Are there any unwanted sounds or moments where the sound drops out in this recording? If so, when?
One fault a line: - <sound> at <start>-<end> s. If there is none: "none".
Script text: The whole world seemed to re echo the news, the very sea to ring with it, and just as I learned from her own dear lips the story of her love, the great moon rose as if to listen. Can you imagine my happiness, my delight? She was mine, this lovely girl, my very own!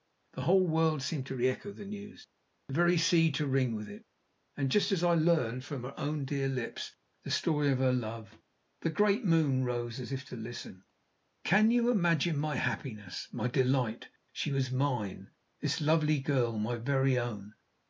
none